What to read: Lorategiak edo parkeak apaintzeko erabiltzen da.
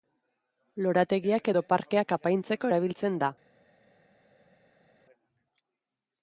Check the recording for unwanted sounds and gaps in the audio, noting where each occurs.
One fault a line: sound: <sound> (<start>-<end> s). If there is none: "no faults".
no faults